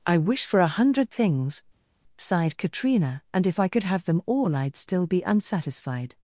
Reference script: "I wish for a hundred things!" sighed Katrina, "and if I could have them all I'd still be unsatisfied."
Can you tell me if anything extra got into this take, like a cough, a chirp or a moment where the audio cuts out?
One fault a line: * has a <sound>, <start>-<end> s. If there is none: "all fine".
all fine